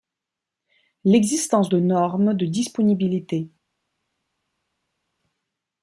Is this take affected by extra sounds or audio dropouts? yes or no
no